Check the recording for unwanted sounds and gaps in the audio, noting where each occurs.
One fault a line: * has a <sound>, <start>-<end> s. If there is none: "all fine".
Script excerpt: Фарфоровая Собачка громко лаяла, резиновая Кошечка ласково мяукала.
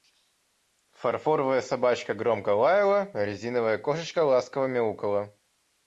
all fine